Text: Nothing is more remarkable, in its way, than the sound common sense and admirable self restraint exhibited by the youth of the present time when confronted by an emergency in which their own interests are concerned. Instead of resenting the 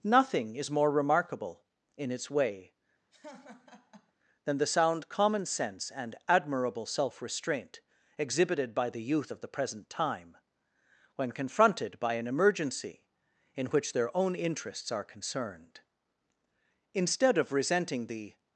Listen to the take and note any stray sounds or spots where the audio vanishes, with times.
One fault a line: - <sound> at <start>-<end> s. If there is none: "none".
- laugh at 3.1-4.1 s